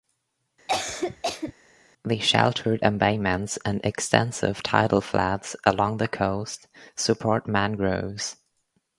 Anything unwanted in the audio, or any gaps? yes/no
yes